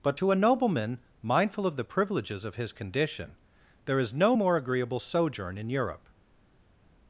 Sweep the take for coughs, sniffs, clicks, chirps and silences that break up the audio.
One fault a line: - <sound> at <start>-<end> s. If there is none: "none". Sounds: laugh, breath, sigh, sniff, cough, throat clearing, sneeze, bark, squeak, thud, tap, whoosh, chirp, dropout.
none